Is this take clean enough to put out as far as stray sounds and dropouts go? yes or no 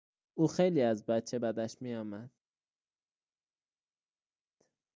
yes